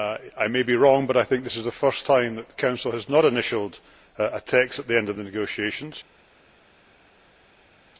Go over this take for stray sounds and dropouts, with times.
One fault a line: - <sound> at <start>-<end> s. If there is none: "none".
none